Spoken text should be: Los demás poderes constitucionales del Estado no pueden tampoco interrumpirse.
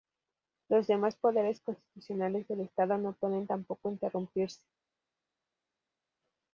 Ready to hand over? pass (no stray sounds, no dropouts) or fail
pass